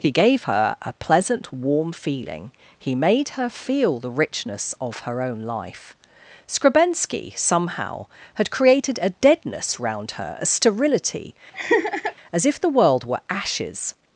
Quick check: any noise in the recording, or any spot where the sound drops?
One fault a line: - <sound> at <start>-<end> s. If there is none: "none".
- laugh at 11.5-12.1 s